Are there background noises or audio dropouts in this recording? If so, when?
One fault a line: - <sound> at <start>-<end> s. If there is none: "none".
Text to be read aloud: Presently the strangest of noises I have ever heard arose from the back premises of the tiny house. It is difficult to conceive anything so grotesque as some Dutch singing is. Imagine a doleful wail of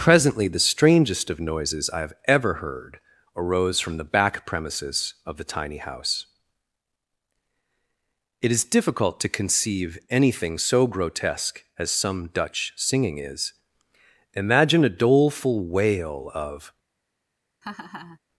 - laugh at 17.6-18.2 s